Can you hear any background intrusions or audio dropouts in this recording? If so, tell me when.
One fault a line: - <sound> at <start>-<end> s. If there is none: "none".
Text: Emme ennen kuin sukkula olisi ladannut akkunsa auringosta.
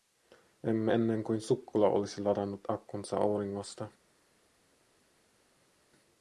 none